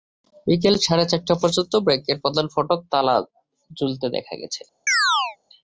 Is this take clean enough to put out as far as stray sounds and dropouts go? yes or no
no